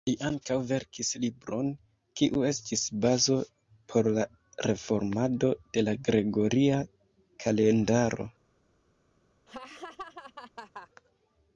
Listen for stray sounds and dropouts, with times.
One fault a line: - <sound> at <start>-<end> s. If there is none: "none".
- laugh at 9.5-10.9 s